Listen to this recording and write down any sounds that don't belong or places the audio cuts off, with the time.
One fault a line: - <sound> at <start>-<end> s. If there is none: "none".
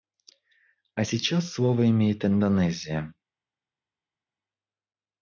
none